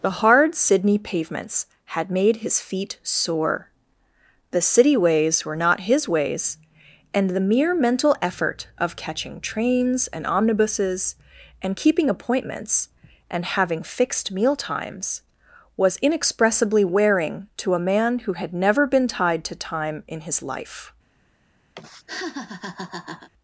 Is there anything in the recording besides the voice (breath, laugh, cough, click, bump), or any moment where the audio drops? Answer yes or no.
yes